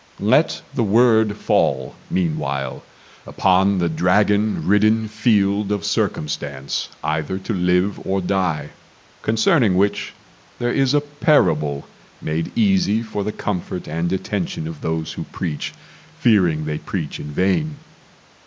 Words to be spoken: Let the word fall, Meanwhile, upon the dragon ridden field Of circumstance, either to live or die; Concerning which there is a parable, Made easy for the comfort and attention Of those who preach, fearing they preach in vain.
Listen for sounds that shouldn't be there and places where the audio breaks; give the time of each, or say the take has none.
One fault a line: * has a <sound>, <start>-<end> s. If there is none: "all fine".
all fine